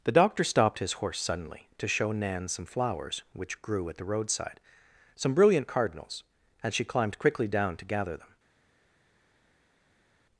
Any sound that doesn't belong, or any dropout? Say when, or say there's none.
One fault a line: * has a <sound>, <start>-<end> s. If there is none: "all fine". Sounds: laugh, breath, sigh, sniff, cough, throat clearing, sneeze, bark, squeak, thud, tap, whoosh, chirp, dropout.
all fine